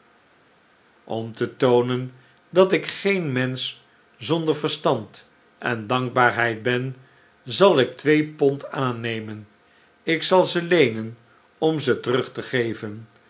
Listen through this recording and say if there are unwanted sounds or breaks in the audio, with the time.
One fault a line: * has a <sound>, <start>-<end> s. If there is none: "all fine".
all fine